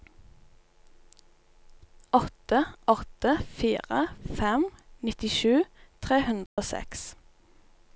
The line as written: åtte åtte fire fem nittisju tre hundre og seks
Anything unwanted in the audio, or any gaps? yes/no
yes